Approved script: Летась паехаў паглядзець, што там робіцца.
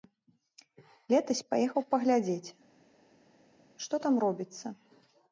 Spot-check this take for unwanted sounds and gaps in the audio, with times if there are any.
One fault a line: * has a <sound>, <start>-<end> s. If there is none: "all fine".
all fine